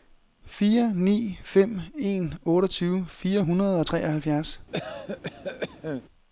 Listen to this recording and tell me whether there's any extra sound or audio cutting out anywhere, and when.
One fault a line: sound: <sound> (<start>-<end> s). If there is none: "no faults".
sound: cough (4.7-6.0 s)